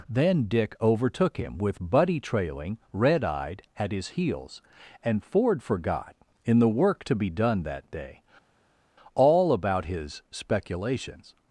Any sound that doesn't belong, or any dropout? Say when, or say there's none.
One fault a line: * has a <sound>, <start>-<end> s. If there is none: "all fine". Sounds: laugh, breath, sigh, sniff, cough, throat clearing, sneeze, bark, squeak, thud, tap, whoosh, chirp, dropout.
all fine